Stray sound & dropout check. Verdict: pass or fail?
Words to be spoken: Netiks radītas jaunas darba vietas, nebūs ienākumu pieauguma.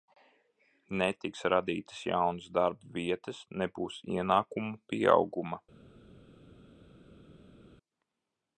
pass